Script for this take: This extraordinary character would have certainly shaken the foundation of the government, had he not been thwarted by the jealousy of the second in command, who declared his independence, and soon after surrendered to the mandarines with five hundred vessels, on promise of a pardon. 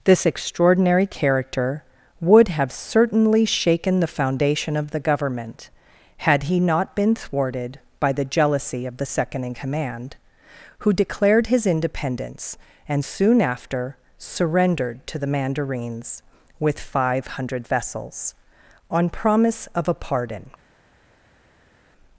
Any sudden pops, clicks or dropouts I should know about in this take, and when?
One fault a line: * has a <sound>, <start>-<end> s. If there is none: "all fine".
all fine